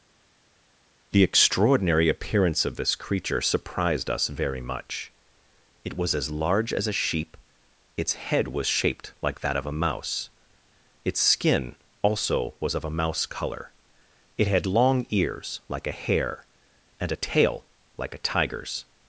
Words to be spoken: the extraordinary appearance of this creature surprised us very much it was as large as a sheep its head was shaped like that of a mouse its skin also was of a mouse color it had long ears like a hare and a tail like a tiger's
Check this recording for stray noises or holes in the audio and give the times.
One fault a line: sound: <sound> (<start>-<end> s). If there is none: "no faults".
no faults